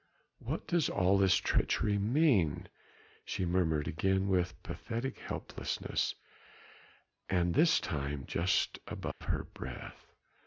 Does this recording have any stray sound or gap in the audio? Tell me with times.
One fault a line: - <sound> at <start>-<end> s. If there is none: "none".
- dropout at 9.1-9.2 s